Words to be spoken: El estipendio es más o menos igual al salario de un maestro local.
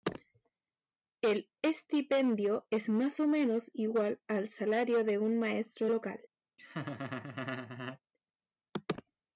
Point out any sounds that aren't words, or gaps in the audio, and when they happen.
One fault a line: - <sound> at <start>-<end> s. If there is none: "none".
- laugh at 6.6-8.0 s